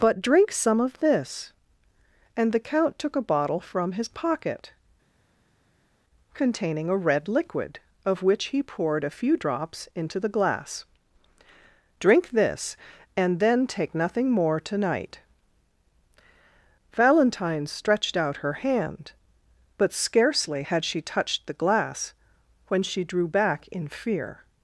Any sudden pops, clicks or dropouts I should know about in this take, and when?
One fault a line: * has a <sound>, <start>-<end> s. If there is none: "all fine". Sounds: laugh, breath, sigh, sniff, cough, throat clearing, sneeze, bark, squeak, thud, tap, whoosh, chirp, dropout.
all fine